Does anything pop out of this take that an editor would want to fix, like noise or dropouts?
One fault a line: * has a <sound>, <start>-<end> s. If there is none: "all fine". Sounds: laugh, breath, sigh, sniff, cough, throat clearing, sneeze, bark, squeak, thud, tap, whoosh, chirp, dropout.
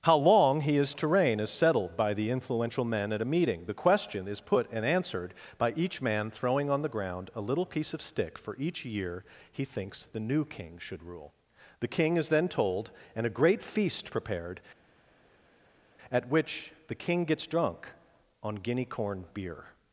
all fine